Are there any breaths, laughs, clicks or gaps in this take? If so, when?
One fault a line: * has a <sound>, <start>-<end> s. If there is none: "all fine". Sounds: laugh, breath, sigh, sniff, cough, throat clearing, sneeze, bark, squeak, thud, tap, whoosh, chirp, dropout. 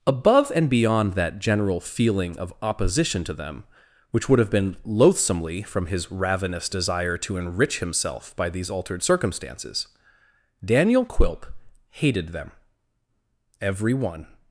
all fine